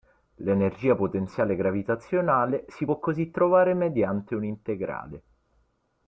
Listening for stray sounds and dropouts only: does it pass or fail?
pass